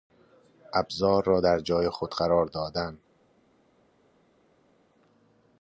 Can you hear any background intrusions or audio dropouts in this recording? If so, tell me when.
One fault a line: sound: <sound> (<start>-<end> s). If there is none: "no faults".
no faults